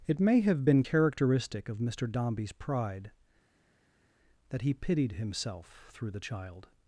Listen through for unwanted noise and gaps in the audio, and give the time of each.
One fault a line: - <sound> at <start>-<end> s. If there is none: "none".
none